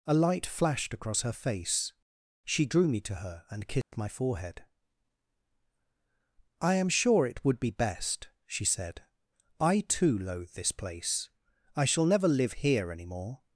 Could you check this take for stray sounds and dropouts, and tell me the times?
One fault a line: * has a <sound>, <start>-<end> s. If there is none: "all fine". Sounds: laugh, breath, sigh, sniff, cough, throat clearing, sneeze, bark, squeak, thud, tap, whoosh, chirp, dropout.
* has a dropout, 3.8-3.9 s